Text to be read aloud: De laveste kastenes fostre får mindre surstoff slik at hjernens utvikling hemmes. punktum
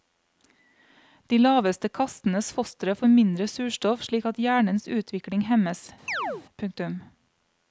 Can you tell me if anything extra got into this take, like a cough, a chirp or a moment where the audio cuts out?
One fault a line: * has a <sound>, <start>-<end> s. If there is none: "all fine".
* has a chirp, 6.1-6.4 s